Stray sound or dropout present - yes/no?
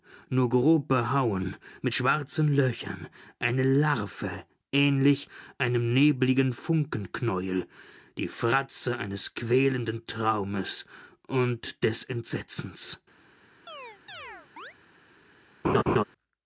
yes